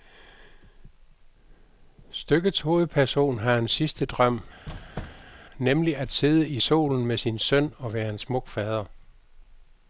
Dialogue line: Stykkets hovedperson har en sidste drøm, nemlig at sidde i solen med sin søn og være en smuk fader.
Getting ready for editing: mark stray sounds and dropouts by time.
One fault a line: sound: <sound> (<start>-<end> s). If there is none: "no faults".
sound: squeak (4.7-5.4 s)